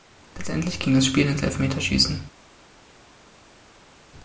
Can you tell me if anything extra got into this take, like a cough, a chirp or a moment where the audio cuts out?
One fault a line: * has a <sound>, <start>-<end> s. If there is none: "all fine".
all fine